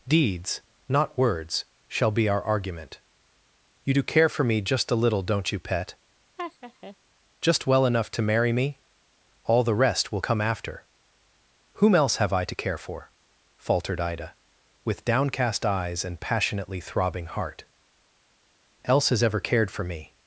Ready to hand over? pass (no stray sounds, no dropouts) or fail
fail